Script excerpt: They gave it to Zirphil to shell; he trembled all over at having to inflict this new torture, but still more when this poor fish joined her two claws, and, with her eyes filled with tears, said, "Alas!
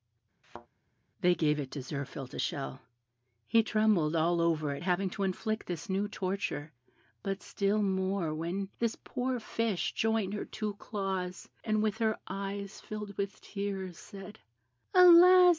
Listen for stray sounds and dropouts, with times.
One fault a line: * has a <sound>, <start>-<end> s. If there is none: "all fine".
* has a thud, 0.4-0.7 s